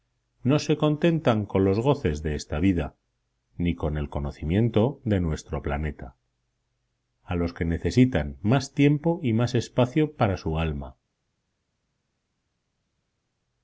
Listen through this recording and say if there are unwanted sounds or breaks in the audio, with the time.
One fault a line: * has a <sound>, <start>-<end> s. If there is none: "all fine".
all fine